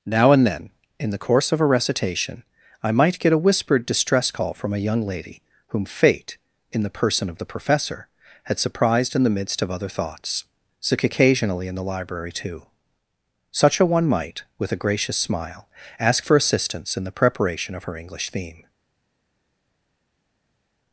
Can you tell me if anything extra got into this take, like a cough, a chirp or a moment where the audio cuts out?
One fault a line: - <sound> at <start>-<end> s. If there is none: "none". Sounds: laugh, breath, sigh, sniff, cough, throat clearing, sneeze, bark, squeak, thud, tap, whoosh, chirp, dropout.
none